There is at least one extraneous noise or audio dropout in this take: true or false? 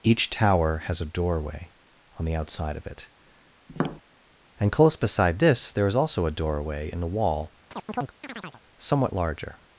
true